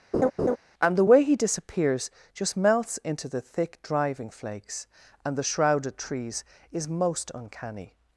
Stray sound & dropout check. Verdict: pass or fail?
fail